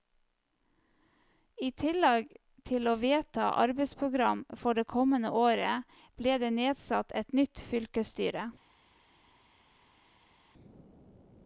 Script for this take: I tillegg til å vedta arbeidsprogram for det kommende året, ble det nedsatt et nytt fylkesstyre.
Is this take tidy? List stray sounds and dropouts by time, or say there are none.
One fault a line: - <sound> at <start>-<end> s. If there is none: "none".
none